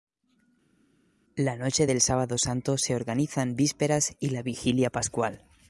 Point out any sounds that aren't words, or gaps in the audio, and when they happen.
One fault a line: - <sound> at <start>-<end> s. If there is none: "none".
none